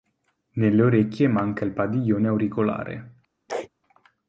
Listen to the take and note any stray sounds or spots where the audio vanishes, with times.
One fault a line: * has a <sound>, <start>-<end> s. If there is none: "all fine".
* has a sneeze, 3.5-3.7 s